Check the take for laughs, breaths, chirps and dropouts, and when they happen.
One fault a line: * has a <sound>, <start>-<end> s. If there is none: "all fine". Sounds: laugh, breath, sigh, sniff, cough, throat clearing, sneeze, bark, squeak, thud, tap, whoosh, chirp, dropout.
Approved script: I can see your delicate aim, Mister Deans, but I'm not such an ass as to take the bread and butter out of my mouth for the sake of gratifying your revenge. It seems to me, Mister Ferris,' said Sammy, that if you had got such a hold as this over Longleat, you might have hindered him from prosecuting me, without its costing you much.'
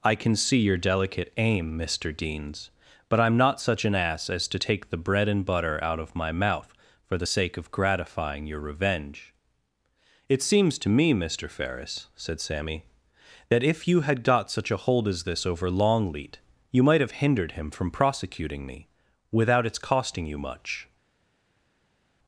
all fine